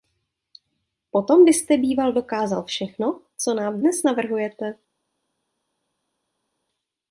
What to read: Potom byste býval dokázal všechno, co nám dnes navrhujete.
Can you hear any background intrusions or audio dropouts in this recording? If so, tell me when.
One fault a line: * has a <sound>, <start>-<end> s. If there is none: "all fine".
all fine